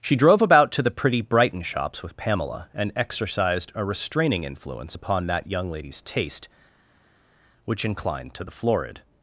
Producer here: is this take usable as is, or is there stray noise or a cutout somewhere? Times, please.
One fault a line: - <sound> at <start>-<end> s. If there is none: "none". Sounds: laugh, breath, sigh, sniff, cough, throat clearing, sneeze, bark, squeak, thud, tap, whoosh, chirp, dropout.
none